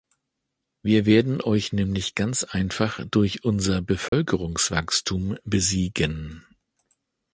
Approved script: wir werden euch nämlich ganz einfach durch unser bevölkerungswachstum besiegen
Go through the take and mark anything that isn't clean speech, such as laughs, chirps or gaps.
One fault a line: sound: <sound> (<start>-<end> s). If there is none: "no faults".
sound: dropout (4.1-4.1 s)